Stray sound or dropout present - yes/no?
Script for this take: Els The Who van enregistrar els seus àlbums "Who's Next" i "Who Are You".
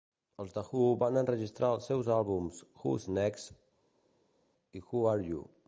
no